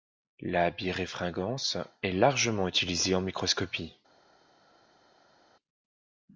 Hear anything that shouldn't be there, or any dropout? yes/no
no